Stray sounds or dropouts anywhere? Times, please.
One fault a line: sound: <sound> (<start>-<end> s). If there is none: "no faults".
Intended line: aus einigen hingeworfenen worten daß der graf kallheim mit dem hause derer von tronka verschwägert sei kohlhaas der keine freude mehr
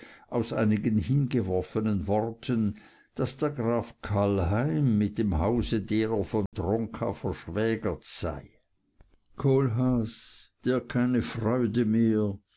sound: dropout (6.5-6.5 s)